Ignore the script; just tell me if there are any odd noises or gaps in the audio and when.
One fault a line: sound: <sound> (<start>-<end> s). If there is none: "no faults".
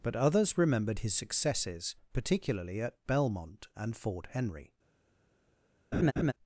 sound: laugh (5.9-6.3 s)